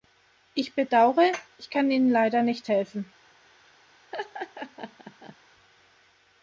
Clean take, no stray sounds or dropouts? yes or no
no